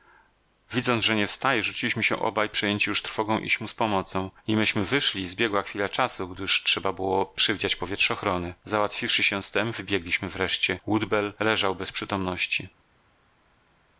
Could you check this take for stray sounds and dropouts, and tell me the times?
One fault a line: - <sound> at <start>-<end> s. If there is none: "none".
none